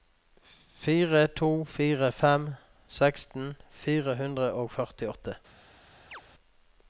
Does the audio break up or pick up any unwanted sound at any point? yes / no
yes